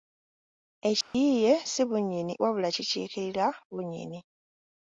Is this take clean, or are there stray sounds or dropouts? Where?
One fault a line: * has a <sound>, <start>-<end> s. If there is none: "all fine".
* has a dropout, 1.0-1.1 s